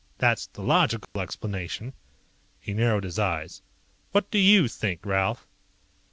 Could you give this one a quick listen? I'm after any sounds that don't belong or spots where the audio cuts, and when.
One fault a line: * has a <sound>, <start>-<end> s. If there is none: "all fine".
* has a dropout, 1.0-1.2 s